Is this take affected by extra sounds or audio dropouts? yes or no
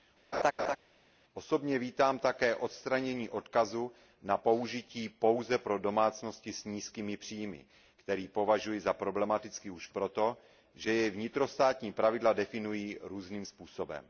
yes